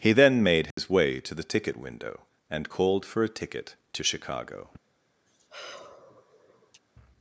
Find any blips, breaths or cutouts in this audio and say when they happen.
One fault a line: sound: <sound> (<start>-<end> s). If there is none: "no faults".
sound: dropout (0.7-0.8 s)
sound: sigh (5.3-6.8 s)